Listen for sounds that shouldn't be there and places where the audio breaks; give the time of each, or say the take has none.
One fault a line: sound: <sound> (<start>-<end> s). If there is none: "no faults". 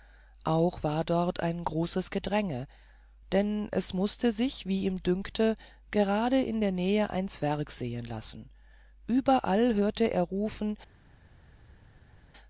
no faults